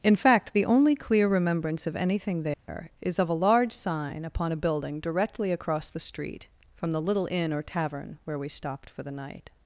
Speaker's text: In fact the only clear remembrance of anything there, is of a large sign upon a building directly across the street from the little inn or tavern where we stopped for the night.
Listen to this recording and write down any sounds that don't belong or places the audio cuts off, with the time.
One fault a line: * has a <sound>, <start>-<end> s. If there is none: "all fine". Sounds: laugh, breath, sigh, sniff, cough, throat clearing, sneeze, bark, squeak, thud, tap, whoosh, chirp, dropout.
* has a dropout, 2.5-2.7 s